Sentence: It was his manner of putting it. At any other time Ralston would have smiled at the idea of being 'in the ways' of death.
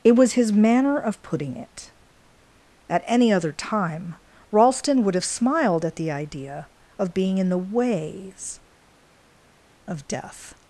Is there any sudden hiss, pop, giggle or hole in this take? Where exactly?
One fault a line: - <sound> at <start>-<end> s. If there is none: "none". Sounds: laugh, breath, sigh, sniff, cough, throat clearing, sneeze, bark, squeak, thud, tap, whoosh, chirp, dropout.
none